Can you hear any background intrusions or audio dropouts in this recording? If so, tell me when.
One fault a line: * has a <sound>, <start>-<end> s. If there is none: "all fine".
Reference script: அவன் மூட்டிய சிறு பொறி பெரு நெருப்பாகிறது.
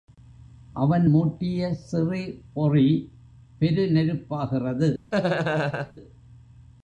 * has a laugh, 5.1-5.9 s